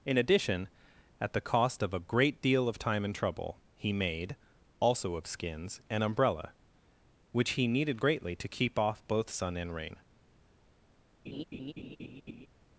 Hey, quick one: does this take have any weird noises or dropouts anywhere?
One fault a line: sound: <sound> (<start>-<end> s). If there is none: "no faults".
sound: laugh (11.3-12.5 s)